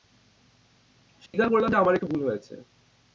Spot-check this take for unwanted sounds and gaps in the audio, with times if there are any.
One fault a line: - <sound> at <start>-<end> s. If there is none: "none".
- dropout at 1.3-1.3 s